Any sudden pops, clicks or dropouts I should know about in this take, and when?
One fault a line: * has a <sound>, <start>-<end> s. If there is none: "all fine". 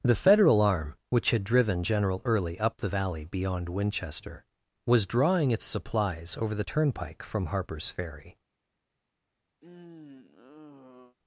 * has a sigh, 9.6-11.2 s